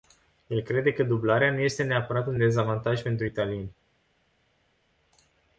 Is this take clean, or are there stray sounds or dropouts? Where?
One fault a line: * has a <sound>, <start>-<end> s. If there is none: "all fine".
all fine